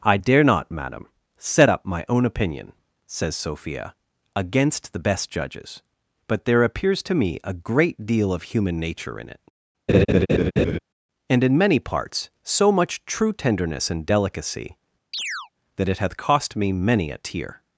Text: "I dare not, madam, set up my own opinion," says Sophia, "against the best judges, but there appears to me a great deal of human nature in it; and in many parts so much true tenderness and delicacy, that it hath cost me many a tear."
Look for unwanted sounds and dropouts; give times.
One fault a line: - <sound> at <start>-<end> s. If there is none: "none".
- laugh at 9.9-10.8 s
- chirp at 15.1-15.5 s